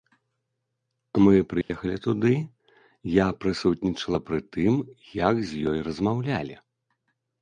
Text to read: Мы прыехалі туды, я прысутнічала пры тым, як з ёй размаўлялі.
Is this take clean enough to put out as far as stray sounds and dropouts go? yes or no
no